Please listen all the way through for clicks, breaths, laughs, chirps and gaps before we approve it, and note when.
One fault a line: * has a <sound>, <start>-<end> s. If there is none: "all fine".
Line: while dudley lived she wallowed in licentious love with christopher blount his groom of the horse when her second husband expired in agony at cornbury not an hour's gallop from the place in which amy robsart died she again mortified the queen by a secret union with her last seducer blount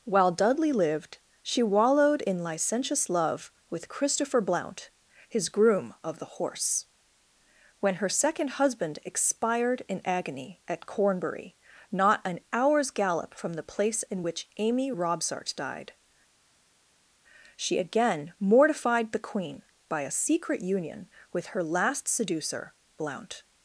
all fine